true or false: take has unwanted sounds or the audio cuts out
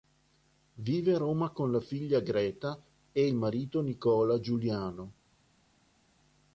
false